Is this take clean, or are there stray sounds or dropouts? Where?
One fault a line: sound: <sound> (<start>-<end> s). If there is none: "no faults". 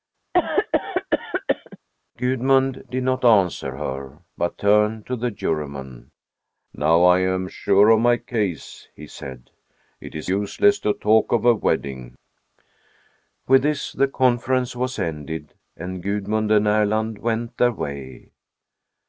sound: cough (0.3-1.8 s)